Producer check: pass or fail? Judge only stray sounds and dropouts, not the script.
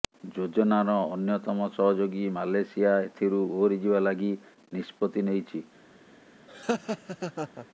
fail